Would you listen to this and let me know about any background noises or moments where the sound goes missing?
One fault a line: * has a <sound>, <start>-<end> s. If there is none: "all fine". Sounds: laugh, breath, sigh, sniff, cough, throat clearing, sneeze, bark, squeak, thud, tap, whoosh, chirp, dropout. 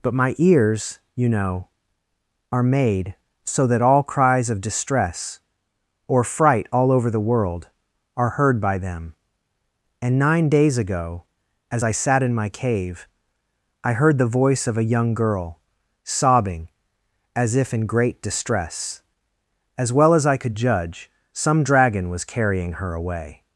all fine